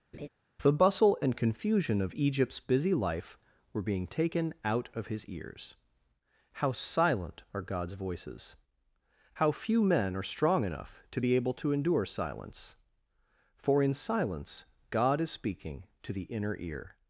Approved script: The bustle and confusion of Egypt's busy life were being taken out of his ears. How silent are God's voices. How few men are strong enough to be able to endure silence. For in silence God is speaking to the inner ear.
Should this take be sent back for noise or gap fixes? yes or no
yes